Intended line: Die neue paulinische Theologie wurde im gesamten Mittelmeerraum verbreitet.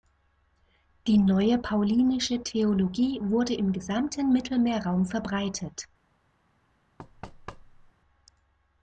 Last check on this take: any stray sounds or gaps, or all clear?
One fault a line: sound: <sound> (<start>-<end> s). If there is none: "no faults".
sound: thud (7.0-7.9 s)